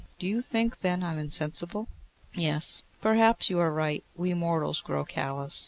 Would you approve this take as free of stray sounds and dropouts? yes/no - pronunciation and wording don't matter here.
yes